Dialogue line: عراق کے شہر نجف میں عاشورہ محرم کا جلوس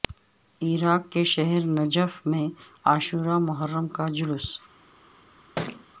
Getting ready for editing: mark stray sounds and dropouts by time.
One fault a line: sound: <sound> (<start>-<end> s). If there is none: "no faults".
sound: thud (5.6-5.9 s)